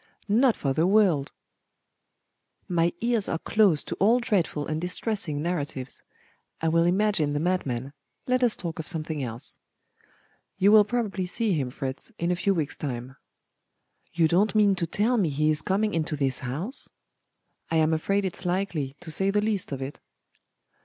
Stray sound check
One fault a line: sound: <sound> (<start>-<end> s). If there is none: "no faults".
no faults